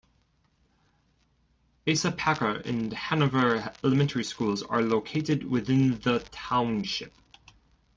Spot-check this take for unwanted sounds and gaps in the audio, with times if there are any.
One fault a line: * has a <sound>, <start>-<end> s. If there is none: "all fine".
all fine